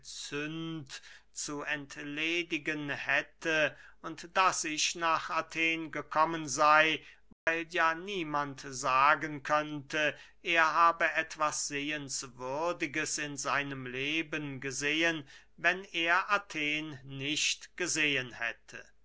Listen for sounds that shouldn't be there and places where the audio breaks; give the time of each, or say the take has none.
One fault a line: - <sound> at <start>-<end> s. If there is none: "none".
- dropout at 7.3-7.5 s